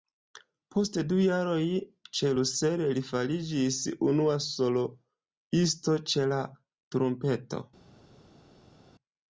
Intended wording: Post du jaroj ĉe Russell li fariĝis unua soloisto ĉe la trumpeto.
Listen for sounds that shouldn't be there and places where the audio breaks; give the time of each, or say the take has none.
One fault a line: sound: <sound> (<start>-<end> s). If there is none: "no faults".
no faults